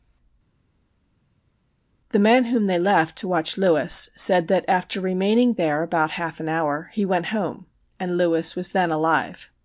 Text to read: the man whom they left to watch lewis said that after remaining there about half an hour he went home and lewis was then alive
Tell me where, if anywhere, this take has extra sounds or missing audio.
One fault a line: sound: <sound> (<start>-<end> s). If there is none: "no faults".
no faults